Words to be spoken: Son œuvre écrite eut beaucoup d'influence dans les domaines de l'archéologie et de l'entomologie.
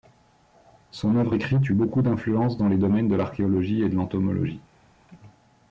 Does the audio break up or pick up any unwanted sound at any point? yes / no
no